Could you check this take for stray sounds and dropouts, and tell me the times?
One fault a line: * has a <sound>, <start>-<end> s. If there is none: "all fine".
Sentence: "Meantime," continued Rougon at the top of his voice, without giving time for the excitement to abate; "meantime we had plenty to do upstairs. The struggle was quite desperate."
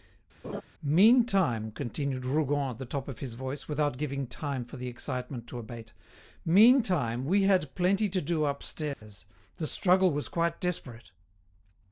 * has a laugh, 0.4-0.6 s
* has a dropout, 8.9-9.0 s